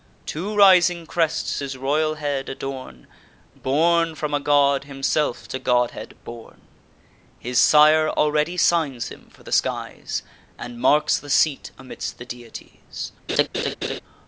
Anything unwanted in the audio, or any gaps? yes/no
yes